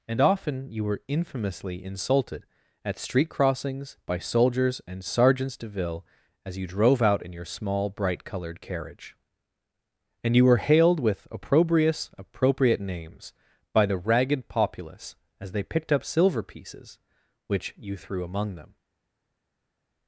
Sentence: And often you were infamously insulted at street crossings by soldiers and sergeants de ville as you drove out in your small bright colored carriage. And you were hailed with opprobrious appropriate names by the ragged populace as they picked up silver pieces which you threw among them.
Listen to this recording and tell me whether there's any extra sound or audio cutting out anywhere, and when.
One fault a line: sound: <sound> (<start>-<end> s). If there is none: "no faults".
no faults